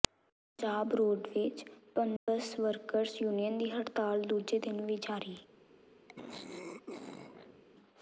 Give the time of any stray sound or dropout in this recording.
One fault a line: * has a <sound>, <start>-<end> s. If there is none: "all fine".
* has a dropout, 2.2-2.3 s
* has a throat clearing, 6.1-7.6 s